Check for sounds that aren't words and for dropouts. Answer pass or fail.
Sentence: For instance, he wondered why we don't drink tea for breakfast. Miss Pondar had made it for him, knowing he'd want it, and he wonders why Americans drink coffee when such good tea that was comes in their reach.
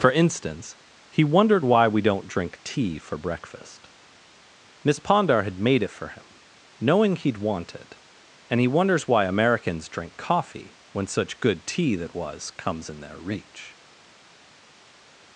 pass